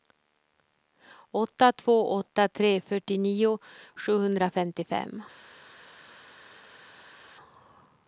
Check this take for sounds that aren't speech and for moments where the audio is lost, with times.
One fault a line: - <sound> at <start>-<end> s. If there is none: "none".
none